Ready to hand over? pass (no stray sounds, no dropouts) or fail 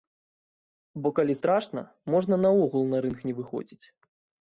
pass